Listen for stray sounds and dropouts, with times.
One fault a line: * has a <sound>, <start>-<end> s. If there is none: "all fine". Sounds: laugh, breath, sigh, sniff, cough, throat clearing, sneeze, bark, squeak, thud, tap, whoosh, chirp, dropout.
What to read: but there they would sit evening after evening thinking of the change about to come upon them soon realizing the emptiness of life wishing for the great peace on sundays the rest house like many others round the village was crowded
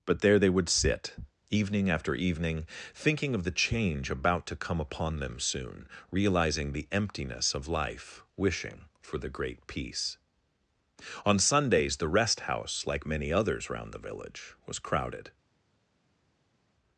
all fine